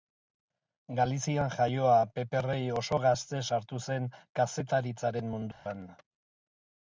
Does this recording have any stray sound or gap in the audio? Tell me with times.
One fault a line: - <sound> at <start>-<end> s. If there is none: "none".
- dropout at 5.5-5.7 s